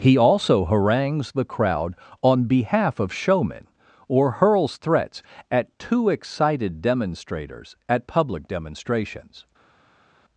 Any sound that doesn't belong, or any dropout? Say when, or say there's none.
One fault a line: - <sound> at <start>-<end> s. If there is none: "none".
none